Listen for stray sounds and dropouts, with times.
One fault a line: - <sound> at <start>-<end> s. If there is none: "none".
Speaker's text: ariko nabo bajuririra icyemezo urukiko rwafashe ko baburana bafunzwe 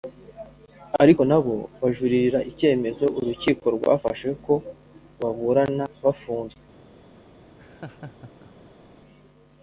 - laugh at 7.6-8.9 s